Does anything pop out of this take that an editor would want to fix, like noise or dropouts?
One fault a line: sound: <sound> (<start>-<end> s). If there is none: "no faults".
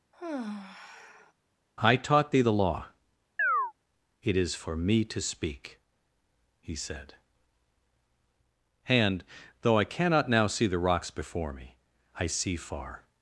sound: sigh (0.1-1.3 s)
sound: chirp (3.4-3.7 s)